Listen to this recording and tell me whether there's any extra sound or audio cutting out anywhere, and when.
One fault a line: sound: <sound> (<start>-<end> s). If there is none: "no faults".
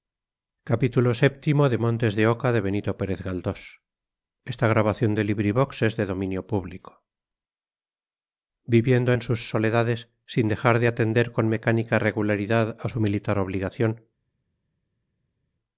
no faults